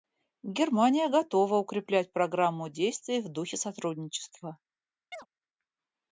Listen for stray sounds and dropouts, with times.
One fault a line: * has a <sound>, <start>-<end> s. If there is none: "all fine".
* has a chirp, 5.1-5.3 s